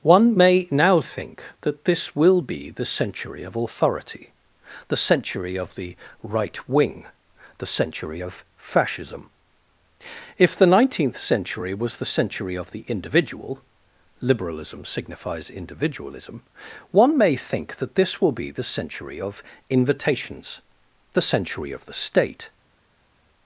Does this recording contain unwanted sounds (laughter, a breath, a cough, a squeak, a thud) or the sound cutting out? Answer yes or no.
no